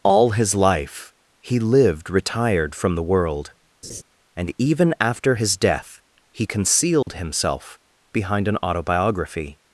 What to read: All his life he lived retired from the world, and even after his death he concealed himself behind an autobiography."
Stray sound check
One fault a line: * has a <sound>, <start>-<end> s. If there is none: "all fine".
* has a laugh, 3.8-4.0 s
* has a dropout, 7.0-7.1 s